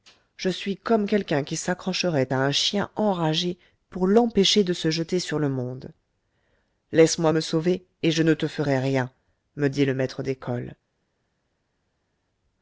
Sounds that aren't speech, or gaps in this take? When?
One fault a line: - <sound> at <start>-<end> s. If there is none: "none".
none